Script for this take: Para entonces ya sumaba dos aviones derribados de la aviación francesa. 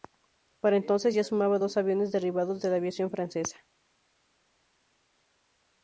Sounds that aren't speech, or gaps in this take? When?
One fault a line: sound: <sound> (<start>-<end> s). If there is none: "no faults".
no faults